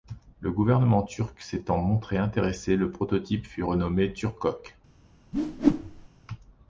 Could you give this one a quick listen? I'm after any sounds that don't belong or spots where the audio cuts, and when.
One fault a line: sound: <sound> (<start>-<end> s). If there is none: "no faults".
sound: whoosh (5.3-6.1 s)